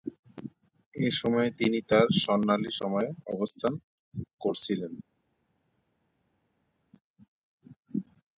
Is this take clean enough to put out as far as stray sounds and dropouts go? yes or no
yes